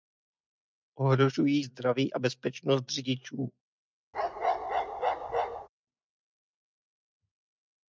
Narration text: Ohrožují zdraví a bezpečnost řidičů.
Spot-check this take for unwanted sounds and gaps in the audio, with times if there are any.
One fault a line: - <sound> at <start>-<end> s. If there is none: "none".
- bark at 4.1-5.7 s